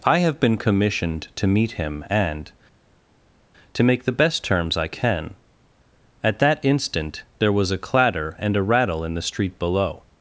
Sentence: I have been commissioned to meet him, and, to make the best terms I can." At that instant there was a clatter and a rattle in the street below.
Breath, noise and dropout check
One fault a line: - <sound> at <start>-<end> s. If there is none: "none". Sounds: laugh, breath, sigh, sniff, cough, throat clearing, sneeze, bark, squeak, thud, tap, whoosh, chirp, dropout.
none